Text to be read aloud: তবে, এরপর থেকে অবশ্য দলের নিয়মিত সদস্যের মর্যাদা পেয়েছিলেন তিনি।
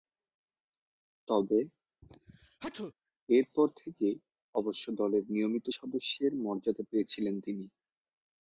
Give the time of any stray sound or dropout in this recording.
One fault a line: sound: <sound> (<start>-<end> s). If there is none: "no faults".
sound: sneeze (2.0-2.9 s)